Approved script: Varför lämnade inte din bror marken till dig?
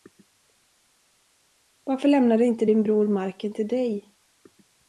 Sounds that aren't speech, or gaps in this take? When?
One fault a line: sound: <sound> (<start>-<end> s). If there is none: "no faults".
no faults